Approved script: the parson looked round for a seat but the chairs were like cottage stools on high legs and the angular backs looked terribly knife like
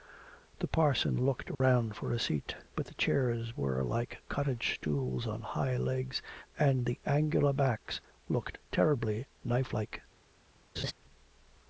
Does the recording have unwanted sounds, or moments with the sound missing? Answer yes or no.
yes